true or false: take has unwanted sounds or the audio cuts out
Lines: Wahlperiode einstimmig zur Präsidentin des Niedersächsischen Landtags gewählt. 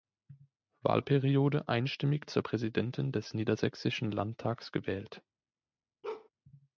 true